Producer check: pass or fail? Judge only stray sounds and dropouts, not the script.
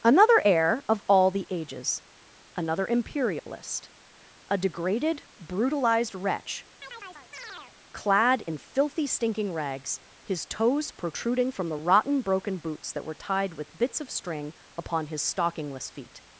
fail